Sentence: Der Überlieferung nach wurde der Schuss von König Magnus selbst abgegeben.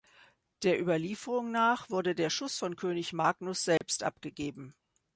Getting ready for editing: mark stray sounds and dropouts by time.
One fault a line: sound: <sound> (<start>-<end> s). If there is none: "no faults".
sound: dropout (3.8-3.8 s)